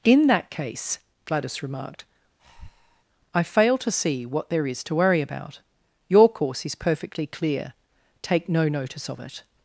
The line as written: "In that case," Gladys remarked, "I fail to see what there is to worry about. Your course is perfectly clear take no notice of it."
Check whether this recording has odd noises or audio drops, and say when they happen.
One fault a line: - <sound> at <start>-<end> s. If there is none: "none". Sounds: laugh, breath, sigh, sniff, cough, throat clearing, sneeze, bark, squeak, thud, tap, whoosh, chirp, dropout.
- breath at 2.4-3.0 s